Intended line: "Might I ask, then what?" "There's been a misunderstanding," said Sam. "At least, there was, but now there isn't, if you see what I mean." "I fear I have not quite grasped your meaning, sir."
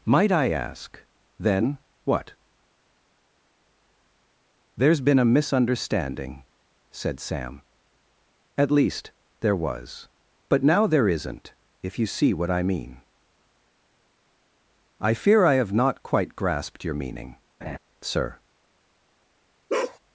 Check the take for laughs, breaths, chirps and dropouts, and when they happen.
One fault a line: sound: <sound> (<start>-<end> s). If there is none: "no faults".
sound: laugh (17.6-17.8 s)
sound: bark (19.7-20.0 s)